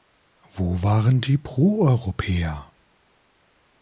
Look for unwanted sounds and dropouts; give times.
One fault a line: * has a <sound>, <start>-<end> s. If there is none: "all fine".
all fine